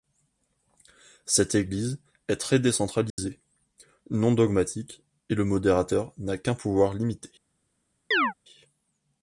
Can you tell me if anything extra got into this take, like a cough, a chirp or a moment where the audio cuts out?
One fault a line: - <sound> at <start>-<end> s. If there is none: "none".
- dropout at 3.1-3.2 s
- chirp at 8.1-8.3 s